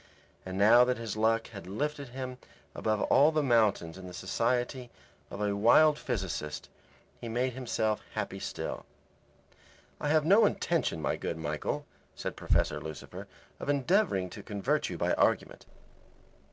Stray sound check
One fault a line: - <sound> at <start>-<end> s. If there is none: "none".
none